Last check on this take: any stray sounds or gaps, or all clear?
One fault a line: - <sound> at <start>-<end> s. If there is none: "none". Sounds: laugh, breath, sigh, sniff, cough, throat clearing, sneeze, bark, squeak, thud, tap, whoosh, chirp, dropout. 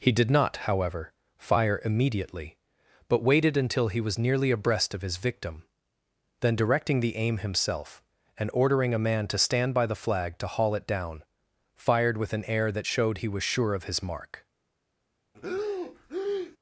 - breath at 15.3-16.6 s